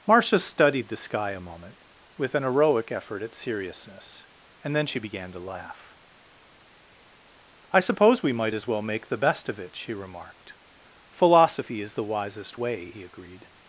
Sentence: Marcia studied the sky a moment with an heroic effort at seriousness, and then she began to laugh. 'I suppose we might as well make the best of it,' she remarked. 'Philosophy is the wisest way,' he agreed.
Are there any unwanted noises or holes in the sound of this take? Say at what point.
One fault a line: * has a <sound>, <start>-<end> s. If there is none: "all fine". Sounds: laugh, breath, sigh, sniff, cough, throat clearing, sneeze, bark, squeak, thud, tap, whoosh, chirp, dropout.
all fine